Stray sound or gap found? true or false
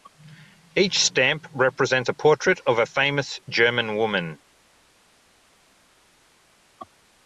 false